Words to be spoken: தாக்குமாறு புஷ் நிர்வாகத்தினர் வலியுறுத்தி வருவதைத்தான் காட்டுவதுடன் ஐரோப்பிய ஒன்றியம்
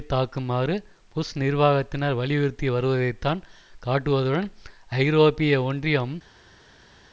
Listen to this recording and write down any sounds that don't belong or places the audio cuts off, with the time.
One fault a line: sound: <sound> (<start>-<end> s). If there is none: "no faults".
no faults